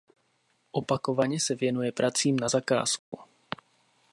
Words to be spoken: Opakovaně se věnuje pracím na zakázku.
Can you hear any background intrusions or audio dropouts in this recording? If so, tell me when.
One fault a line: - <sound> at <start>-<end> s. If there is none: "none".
- dropout at 3.0-3.1 s